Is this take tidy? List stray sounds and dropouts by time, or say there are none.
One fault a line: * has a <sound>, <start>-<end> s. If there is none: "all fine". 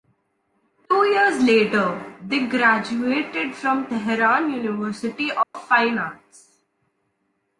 * has a dropout, 5.4-5.5 s